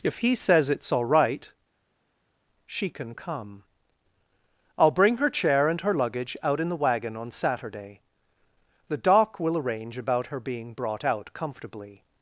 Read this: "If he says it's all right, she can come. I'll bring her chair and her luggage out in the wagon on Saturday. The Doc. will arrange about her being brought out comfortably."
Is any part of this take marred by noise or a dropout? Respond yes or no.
no